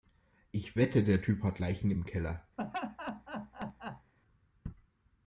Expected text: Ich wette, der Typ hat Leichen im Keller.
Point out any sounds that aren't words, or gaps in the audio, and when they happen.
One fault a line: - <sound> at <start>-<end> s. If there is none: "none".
- laugh at 2.6-4.1 s